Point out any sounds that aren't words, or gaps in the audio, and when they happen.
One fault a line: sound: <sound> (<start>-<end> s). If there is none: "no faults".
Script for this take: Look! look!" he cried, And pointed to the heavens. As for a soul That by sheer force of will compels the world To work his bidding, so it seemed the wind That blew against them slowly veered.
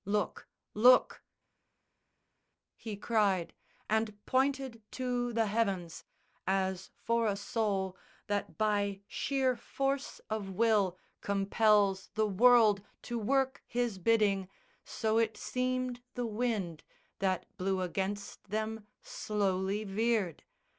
no faults